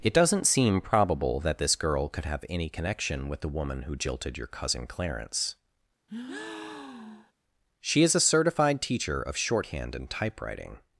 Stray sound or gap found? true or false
true